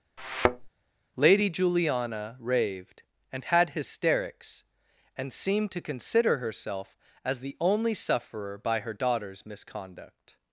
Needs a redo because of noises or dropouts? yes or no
yes